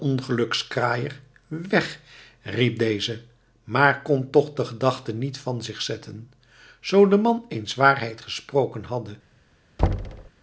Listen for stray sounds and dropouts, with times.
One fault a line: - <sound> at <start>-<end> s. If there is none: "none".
- thud at 9.8-10.3 s